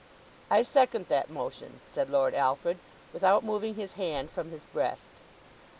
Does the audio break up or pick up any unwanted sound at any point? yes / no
no